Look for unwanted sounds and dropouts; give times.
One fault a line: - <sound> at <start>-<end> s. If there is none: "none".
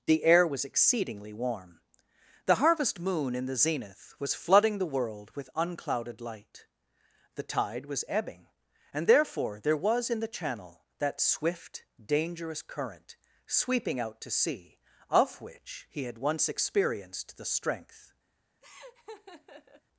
- laugh at 18.6-19.8 s